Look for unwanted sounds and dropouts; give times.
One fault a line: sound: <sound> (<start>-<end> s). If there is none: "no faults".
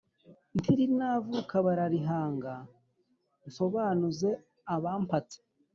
no faults